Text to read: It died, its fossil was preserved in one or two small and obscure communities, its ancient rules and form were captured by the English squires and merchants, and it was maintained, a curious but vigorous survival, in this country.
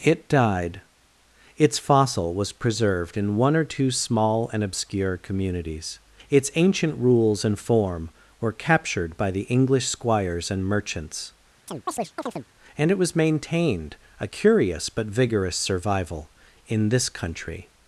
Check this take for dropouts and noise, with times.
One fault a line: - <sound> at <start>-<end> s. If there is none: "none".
- chirp at 11.7-12.5 s